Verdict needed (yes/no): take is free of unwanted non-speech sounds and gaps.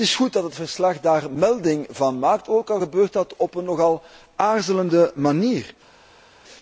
yes